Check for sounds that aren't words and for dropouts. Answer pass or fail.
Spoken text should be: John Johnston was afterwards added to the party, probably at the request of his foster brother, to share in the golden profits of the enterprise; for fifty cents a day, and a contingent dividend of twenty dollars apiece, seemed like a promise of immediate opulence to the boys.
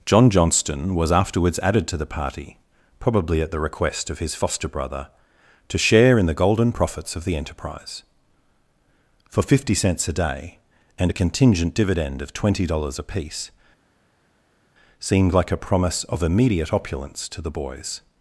pass